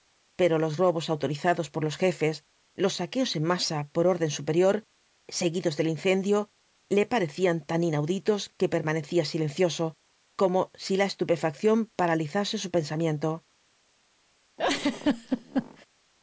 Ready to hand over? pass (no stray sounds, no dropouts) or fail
fail